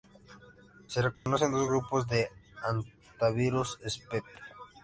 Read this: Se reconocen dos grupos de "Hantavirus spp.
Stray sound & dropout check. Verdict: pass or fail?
fail